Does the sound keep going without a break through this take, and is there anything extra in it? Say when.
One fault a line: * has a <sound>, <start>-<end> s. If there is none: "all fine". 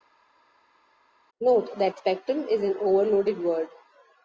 all fine